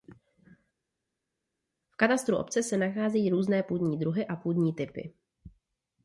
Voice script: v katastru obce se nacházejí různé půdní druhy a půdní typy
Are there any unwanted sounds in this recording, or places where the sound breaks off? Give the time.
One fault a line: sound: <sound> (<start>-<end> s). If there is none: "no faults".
no faults